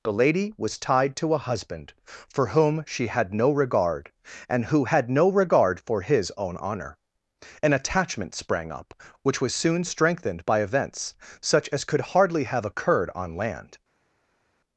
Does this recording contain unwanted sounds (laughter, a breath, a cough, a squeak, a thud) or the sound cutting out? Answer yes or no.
no